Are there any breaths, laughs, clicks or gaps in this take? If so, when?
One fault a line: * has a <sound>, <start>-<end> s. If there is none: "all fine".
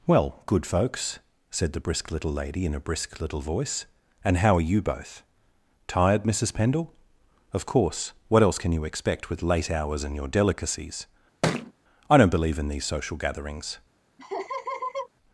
* has a thud, 11.4-11.7 s
* has a laugh, 14.2-15.1 s